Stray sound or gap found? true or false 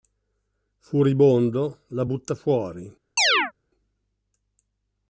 true